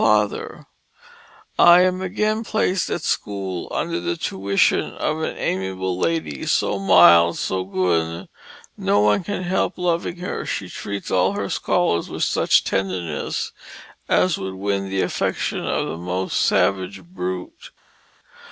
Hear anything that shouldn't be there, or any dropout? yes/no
no